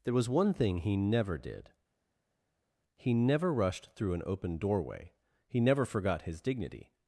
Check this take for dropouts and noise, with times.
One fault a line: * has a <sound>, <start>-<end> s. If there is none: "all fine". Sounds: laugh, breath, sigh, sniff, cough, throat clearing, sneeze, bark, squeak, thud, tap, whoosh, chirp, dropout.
all fine